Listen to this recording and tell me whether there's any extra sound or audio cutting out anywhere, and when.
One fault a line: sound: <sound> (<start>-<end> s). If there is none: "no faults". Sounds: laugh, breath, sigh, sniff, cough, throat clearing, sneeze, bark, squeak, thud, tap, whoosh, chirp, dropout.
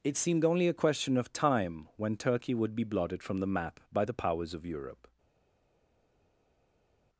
no faults